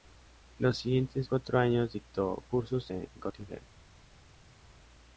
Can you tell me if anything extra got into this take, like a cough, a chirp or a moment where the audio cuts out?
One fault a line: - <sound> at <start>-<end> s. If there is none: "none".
none